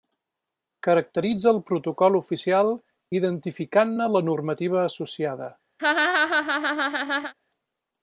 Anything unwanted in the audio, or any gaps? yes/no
yes